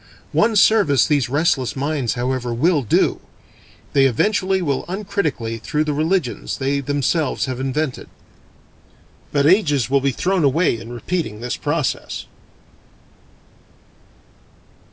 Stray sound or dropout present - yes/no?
no